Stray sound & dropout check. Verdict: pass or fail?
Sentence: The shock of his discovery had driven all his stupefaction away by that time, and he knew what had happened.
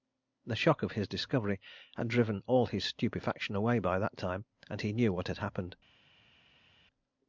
pass